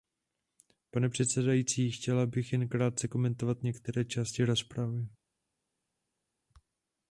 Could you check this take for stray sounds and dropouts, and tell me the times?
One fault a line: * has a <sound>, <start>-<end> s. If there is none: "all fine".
all fine